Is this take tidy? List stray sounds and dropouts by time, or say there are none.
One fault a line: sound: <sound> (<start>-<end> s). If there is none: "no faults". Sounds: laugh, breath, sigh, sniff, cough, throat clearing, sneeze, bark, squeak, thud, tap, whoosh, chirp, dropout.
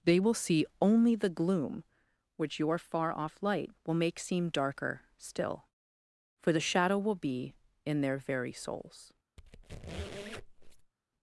sound: squeak (9.4-10.9 s)